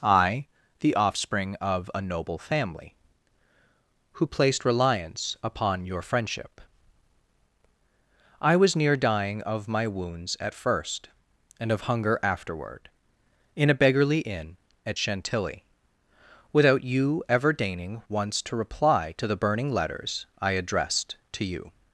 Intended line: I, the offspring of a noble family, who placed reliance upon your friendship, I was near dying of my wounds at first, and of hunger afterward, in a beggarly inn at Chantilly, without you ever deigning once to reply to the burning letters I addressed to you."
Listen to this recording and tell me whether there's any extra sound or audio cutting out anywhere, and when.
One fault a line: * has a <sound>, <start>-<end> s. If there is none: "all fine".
all fine